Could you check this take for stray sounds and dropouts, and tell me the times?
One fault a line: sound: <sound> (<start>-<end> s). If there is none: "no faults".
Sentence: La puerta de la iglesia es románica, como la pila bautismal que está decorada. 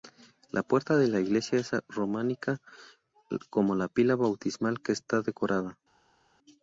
no faults